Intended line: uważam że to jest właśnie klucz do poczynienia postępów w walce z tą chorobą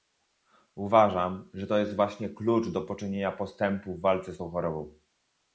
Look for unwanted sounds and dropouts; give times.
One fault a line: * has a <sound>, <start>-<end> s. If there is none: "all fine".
all fine